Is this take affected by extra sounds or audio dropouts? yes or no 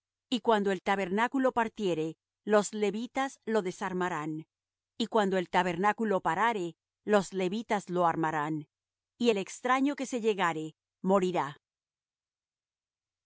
no